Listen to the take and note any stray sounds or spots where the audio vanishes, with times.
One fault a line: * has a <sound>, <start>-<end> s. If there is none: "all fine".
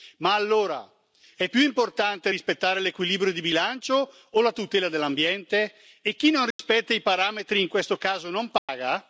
* has a dropout, 6.5-6.6 s
* has a dropout, 8.6-8.7 s